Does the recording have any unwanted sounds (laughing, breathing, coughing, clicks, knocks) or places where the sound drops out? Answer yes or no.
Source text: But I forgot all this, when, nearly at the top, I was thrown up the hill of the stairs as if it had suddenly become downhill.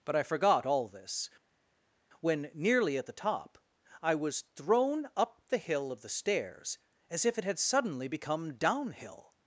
no